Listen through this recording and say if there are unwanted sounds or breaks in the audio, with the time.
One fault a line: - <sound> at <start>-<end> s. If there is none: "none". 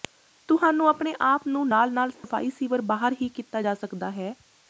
- dropout at 2.1-2.2 s